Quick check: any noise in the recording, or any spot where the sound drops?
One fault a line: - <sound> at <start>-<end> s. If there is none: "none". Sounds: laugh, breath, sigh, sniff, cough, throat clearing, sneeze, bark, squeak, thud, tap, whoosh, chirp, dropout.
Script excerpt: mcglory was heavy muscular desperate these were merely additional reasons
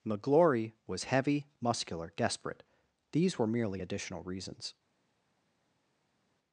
none